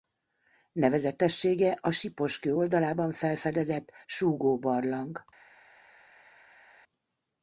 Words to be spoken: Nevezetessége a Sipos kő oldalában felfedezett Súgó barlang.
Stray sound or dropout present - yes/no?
no